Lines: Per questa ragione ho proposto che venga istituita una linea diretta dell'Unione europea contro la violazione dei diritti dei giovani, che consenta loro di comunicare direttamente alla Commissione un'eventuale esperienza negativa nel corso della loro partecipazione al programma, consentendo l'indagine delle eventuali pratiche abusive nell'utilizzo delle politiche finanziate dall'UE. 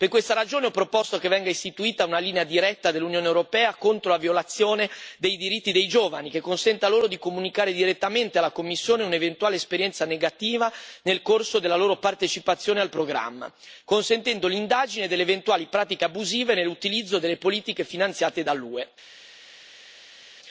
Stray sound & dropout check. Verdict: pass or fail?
pass